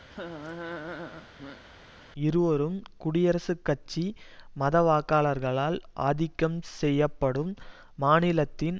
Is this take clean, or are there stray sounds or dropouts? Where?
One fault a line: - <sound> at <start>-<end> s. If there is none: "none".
- laugh at 0.1-1.6 s